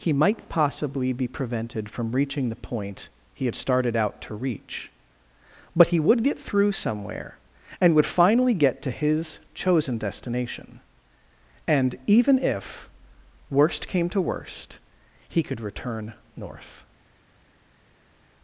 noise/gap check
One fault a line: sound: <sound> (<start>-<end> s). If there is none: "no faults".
no faults